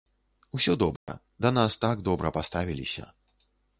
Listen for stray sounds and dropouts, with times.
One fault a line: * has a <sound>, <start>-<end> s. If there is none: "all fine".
* has a dropout, 1.0-1.1 s